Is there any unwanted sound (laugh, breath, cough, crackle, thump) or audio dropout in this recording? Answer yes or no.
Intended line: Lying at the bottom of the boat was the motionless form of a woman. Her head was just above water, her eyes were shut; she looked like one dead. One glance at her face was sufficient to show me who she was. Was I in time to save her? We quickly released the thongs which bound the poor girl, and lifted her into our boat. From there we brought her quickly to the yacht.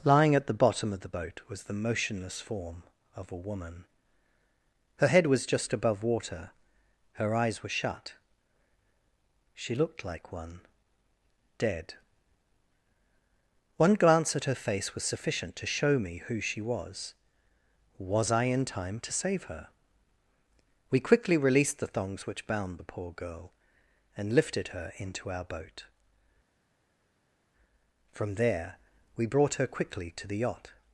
no